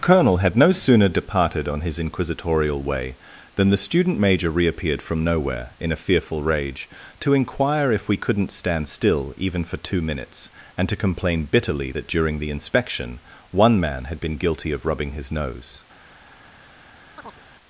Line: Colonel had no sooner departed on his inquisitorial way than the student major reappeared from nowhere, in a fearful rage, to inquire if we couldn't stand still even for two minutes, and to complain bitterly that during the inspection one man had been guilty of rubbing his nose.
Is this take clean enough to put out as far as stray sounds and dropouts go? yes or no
no